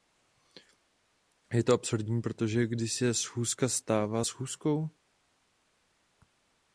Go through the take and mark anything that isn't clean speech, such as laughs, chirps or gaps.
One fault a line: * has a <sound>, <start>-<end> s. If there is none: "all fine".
all fine